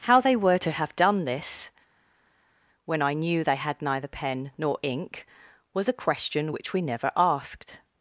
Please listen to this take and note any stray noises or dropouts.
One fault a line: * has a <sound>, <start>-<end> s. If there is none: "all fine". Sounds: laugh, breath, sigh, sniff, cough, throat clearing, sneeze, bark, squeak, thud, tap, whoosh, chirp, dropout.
all fine